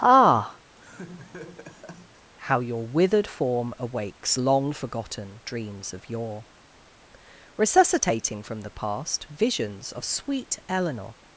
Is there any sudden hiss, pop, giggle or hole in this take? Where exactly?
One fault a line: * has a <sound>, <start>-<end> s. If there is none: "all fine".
* has a laugh, 0.7-2.3 s